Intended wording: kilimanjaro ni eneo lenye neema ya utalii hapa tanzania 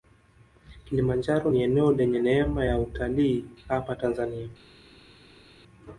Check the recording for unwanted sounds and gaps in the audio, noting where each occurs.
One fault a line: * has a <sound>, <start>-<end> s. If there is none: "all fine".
all fine